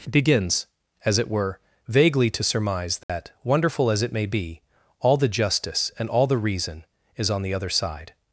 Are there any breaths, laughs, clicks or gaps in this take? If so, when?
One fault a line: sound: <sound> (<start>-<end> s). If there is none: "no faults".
sound: dropout (3.0-3.1 s)